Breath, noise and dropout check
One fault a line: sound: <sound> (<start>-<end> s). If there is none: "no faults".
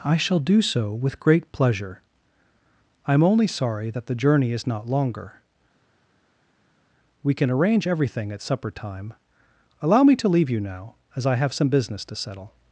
no faults